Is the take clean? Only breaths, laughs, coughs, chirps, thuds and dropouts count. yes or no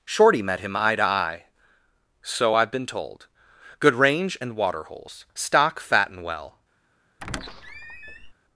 no